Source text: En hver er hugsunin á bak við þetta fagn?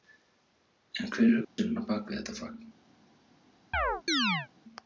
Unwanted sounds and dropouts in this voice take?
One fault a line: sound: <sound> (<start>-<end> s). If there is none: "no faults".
sound: dropout (1.4-1.6 s)
sound: chirp (3.7-4.5 s)